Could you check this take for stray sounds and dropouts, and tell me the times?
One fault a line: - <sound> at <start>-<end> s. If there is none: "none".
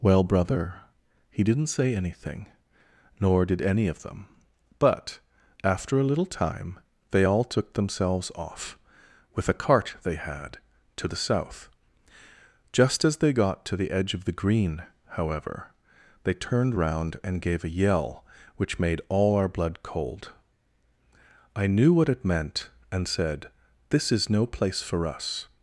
none